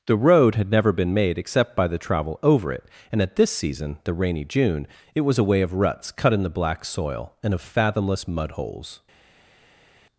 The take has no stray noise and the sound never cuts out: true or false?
true